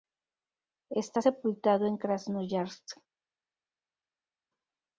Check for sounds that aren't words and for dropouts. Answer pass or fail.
pass